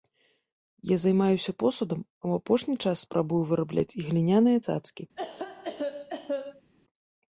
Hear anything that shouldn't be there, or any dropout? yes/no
yes